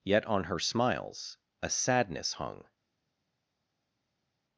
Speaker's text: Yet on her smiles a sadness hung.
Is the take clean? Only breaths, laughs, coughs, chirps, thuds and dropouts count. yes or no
yes